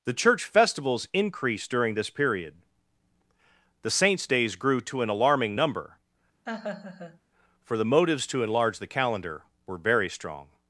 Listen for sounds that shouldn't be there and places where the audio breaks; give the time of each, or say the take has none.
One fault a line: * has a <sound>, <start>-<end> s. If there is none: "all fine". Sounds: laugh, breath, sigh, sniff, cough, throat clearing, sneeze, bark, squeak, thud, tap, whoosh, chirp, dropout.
* has a laugh, 6.5-7.2 s